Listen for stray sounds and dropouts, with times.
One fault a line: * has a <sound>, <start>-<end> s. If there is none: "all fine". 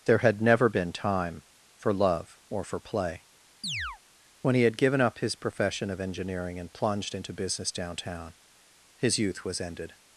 * has a chirp, 3.6-4.0 s